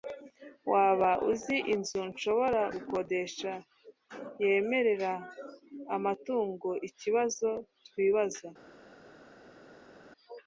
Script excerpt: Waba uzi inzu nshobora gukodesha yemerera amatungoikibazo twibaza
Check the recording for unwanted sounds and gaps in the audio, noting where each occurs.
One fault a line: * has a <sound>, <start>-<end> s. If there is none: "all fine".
all fine